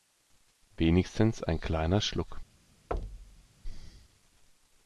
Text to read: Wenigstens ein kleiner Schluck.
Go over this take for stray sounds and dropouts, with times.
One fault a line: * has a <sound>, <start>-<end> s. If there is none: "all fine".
* has a thud, 2.9-3.5 s